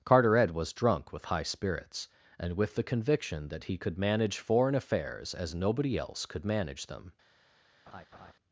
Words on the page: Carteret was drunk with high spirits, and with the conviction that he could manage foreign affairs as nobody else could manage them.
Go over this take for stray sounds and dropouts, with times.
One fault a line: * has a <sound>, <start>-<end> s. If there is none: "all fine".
* has a laugh, 7.9-8.3 s